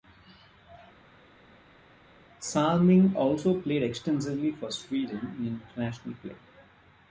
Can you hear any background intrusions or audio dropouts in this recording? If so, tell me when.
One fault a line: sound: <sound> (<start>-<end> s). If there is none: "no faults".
no faults